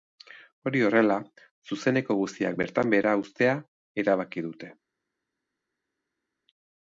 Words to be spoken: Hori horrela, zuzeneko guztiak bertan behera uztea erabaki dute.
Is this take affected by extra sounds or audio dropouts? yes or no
no